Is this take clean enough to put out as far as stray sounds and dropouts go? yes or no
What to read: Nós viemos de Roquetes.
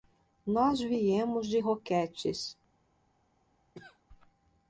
no